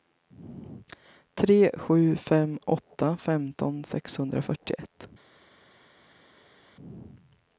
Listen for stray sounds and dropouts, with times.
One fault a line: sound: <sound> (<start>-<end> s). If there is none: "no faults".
no faults